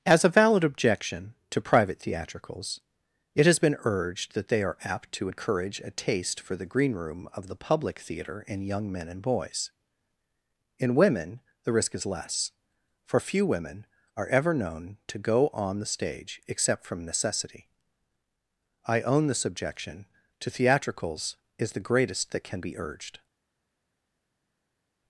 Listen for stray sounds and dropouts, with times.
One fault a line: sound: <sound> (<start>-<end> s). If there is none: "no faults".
no faults